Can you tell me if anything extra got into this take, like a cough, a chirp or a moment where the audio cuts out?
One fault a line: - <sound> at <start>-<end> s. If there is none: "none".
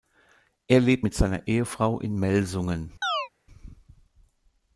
- chirp at 3.0-3.3 s